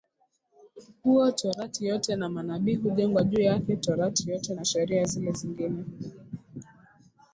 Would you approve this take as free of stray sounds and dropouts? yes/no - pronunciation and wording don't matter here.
yes